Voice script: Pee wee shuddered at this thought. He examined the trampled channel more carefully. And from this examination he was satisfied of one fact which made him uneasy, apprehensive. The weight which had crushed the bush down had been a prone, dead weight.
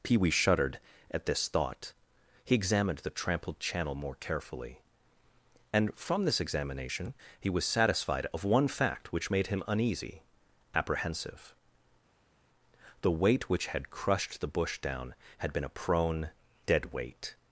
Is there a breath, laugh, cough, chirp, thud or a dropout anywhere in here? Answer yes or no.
no